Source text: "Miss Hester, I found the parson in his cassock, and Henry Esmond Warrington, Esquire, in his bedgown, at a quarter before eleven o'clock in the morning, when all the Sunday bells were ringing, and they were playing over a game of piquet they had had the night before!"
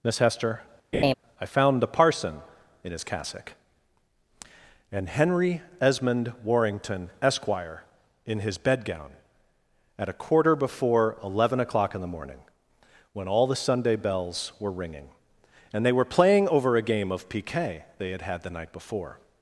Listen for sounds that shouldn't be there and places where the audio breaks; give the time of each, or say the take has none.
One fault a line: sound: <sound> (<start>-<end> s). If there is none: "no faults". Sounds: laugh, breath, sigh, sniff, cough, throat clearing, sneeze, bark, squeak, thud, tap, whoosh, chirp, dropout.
sound: laugh (0.9-1.1 s)